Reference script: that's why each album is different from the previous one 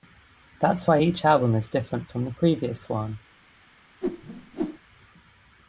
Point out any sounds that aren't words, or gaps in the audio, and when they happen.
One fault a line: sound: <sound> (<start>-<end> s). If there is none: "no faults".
sound: whoosh (4.0-4.8 s)